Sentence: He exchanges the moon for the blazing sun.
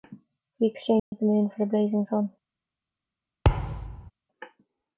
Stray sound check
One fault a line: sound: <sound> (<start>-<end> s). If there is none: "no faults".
sound: dropout (1.0-1.1 s)
sound: thud (3.4-4.1 s)